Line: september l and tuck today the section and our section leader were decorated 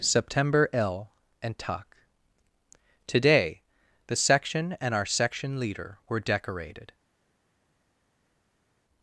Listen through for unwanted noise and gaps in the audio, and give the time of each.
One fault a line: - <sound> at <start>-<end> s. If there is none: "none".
none